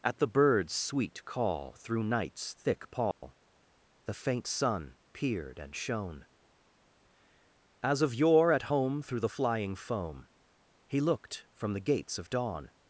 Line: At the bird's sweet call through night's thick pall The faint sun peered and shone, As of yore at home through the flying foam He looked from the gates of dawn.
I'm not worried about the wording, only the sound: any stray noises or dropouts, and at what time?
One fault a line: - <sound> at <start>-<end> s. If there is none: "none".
- dropout at 3.1-3.2 s